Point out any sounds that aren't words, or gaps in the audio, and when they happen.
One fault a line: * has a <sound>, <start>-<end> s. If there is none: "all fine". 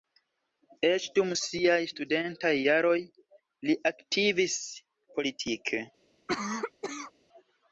* has a cough, 6.3-7.1 s